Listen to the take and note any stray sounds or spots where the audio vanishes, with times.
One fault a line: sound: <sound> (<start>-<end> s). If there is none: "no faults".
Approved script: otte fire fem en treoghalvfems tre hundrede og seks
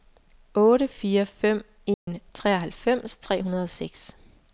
sound: dropout (1.9-2.1 s)